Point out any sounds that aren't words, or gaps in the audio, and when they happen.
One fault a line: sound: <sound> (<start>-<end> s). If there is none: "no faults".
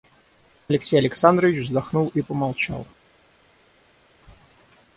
no faults